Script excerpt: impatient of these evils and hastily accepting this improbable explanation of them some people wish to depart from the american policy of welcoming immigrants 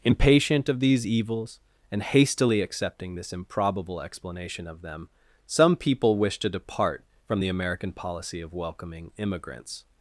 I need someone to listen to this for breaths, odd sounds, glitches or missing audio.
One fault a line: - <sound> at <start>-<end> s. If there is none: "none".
none